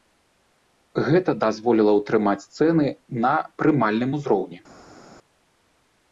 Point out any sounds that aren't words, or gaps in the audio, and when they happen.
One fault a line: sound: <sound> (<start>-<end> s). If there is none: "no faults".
no faults